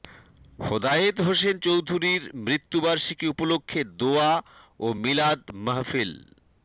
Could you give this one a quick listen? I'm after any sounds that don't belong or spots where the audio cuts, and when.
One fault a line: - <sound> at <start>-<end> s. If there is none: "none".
none